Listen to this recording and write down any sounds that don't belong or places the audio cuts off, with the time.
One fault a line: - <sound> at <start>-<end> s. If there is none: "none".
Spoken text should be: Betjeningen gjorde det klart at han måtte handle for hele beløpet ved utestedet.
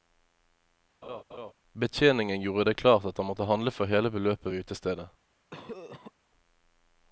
- laugh at 1.0-1.5 s
- cough at 5.5-6.1 s